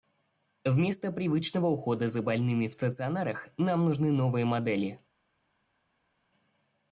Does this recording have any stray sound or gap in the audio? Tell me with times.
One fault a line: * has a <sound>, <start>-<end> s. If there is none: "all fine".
all fine